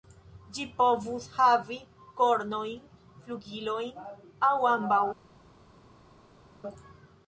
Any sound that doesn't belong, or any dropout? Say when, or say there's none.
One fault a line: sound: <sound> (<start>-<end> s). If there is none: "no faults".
no faults